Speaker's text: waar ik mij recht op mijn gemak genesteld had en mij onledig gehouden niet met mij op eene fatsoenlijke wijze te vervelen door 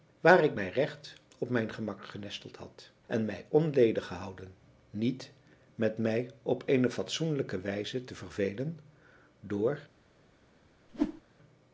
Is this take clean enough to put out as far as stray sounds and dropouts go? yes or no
no